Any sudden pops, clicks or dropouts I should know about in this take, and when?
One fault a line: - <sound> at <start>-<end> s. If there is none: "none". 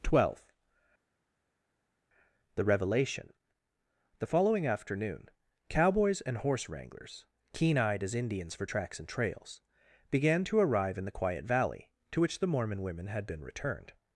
none